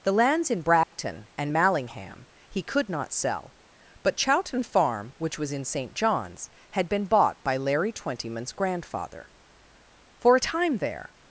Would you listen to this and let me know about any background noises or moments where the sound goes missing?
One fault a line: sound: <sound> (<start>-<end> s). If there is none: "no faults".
sound: dropout (0.8-0.9 s)